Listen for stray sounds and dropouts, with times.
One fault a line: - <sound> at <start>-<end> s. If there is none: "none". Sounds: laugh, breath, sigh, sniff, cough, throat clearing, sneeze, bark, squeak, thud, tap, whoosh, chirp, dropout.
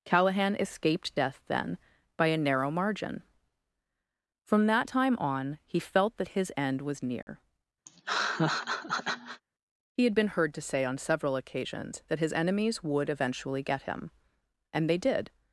- dropout at 7.2-7.3 s
- laugh at 7.9-9.4 s